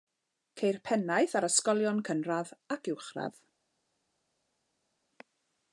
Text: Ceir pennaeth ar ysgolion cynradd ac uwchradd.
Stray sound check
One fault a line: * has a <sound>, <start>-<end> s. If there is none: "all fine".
all fine